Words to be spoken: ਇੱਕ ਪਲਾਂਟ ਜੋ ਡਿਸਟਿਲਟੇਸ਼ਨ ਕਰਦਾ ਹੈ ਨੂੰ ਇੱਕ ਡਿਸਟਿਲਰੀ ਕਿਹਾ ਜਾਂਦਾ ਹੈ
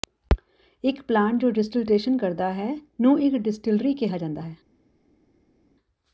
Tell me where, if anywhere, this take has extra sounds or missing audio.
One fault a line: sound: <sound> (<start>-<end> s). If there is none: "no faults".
no faults